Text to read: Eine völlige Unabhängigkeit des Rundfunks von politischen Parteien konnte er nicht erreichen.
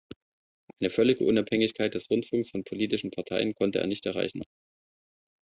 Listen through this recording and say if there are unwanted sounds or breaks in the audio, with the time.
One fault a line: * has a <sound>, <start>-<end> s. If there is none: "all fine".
all fine